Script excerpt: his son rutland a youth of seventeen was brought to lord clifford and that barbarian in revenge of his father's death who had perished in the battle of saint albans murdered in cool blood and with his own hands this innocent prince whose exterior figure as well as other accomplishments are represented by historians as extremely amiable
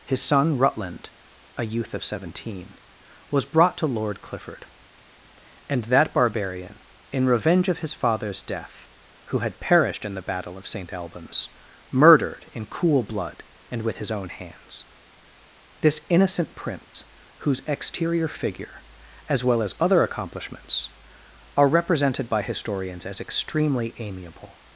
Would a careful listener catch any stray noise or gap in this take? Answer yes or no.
yes